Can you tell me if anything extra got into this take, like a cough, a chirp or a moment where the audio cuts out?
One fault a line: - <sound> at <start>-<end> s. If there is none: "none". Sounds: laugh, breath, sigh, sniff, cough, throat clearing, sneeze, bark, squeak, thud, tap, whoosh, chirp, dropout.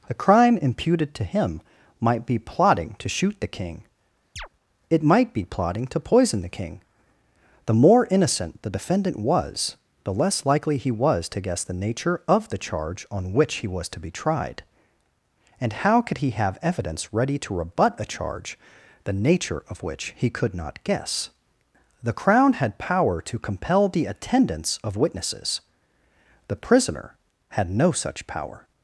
- chirp at 4.4-4.5 s